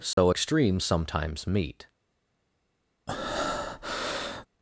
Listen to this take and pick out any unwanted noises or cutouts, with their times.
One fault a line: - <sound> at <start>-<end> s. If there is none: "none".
- dropout at 0.1-0.2 s
- breath at 3.1-4.5 s